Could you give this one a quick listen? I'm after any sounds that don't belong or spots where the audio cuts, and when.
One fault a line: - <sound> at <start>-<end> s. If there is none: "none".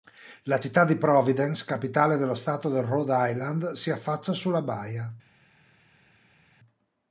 none